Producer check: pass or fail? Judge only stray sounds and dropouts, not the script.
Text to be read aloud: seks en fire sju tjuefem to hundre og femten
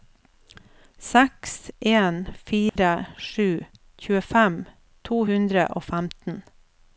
fail